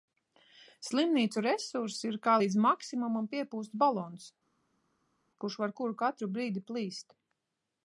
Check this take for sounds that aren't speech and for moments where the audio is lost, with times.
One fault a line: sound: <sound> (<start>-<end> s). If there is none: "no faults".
no faults